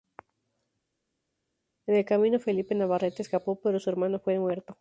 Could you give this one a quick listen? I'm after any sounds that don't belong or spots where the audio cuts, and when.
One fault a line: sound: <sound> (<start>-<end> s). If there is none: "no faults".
no faults